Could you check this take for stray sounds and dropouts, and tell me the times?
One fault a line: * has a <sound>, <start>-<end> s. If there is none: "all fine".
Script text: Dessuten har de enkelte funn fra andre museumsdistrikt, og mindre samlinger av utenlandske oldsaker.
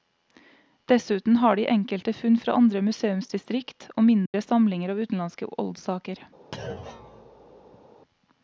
* has a dropout, 4.3-4.3 s
* has a thud, 6.5-7.9 s